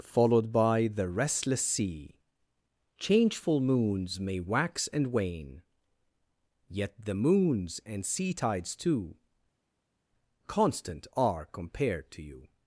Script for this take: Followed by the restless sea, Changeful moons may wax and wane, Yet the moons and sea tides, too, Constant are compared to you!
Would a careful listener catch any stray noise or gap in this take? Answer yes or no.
no